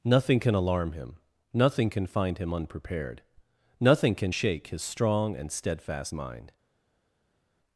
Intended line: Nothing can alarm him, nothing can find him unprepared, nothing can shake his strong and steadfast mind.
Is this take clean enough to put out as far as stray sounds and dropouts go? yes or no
yes